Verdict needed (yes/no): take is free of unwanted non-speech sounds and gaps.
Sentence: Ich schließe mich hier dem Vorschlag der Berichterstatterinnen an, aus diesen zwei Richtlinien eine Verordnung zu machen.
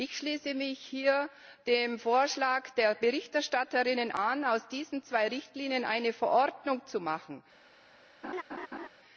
no